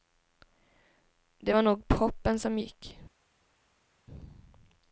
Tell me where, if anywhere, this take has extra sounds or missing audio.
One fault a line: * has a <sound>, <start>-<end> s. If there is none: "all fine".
all fine